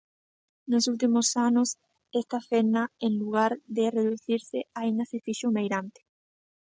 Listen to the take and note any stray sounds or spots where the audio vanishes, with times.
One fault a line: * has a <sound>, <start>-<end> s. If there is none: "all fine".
all fine